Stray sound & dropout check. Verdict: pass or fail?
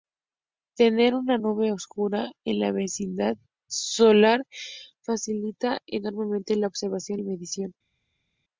pass